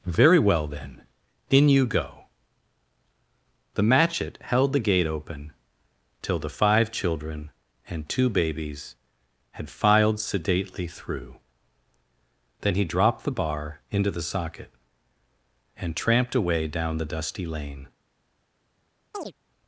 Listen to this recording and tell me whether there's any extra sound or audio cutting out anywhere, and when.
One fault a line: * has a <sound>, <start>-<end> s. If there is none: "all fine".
* has a chirp, 19.1-19.3 s